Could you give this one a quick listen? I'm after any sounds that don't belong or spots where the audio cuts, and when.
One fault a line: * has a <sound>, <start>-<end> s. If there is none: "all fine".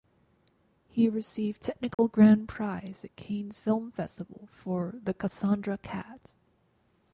* has a dropout, 1.9-2.0 s